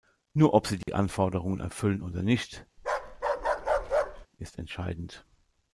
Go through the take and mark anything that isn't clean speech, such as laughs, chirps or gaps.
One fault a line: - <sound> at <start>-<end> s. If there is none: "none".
- dropout at 0.8-0.9 s
- bark at 2.8-4.3 s